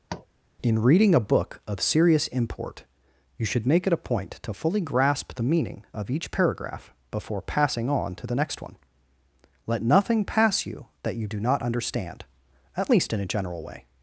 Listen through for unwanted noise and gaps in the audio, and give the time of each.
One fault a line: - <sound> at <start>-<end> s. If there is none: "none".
- tap at 0.1-0.3 s